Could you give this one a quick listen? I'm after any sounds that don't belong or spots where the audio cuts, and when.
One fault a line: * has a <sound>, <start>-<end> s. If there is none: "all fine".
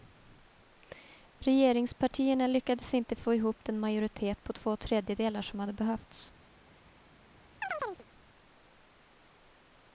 * has a chirp, 7.6-8.1 s